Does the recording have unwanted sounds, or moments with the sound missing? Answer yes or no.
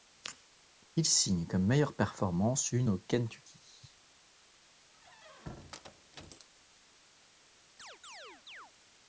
yes